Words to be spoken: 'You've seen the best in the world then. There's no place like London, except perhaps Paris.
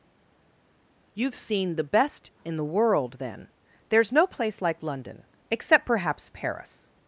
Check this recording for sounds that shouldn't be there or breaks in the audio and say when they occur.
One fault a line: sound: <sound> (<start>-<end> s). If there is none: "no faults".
no faults